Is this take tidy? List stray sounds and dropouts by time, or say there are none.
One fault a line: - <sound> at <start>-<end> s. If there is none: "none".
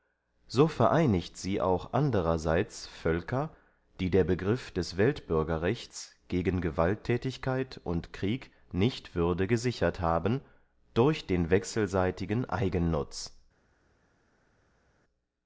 none